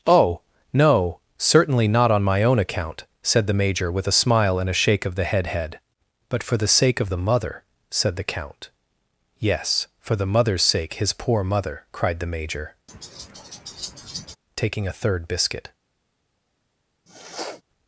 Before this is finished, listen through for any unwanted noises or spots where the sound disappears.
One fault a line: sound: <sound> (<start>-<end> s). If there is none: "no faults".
sound: laugh (12.9-14.4 s)
sound: sniff (17.1-17.6 s)